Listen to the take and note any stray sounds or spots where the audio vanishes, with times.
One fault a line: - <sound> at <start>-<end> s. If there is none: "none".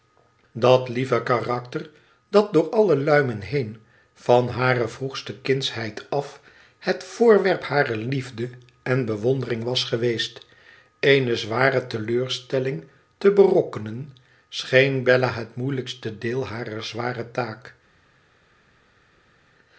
none